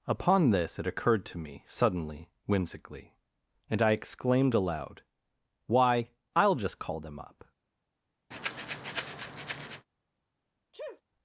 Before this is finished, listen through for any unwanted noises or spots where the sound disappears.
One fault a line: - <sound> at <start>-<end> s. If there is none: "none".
- breath at 8.3-9.9 s
- sneeze at 10.7-11.0 s